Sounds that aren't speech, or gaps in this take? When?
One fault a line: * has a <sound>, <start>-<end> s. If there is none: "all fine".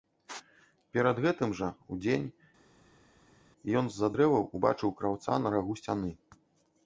all fine